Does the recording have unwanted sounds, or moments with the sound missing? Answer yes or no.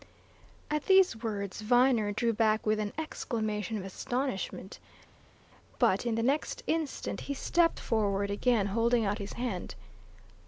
no